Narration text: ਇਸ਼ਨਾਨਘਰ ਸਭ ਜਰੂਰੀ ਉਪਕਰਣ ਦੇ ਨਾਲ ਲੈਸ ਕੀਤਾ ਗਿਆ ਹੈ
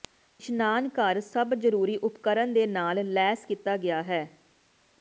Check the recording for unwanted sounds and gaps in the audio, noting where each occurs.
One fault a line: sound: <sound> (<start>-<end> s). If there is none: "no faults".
no faults